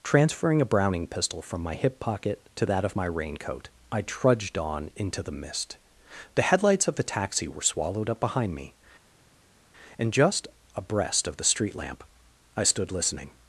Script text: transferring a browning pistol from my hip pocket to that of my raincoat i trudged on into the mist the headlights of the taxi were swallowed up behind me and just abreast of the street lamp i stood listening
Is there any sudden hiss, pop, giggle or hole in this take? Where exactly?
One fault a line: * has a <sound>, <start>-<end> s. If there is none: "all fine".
all fine